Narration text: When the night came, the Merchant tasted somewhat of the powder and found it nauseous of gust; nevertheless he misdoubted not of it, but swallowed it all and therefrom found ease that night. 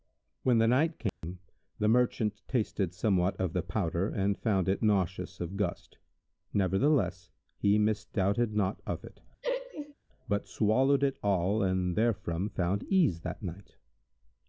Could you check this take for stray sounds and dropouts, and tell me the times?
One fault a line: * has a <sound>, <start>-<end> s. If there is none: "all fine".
* has a dropout, 1.1-1.2 s
* has a laugh, 9.4-9.9 s